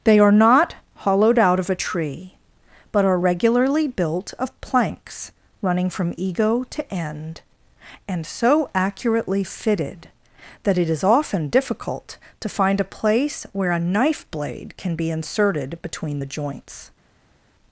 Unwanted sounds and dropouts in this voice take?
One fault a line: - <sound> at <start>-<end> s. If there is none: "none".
none